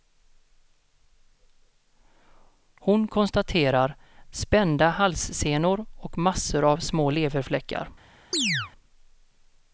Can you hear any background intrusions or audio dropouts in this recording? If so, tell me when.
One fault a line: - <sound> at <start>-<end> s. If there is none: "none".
- chirp at 8.3-8.7 s